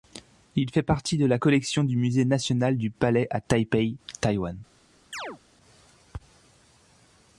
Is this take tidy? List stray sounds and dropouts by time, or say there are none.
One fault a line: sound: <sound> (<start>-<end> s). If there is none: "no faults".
sound: chirp (5.1-5.4 s)